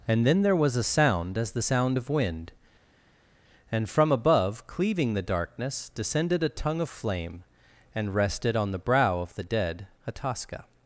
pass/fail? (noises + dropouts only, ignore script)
pass